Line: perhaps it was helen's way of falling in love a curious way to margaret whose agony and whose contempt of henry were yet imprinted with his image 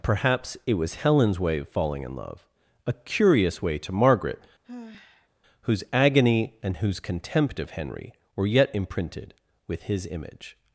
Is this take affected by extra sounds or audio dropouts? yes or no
yes